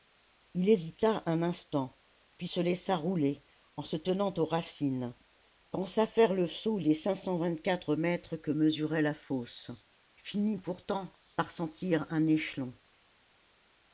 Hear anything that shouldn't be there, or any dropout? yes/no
no